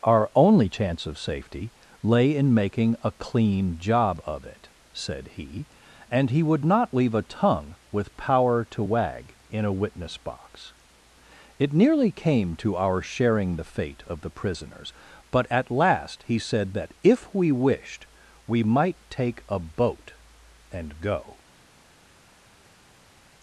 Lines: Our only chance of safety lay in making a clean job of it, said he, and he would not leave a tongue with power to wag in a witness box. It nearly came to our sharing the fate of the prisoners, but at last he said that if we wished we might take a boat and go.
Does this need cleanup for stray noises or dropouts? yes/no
no